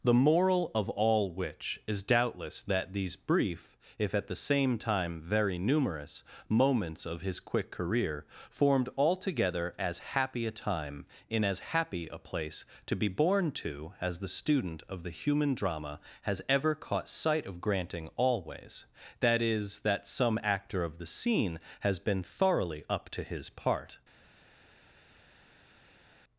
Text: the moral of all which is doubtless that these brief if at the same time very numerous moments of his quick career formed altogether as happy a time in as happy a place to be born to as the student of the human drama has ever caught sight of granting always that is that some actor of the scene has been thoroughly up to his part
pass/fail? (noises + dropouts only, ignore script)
pass